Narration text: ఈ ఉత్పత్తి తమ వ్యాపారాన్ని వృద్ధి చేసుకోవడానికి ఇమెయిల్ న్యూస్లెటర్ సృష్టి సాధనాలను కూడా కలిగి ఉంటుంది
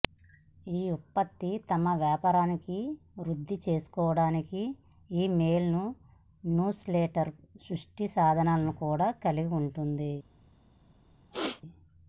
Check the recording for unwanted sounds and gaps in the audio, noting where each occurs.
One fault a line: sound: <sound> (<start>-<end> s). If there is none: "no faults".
sound: throat clearing (11.3-11.6 s)